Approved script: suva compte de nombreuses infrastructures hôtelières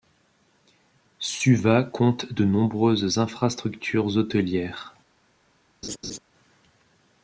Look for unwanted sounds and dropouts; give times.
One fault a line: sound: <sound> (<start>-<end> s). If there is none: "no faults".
sound: laugh (5.8-6.2 s)